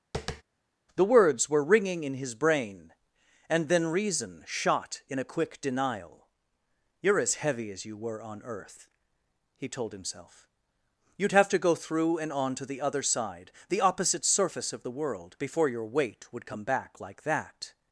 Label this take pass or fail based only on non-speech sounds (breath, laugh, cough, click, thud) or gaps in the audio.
fail